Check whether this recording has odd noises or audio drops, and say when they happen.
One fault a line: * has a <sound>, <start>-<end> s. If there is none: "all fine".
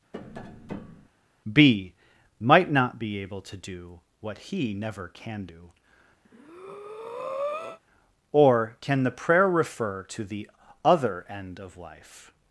* has a tap, 0.1-1.1 s
* has a breath, 6.2-7.8 s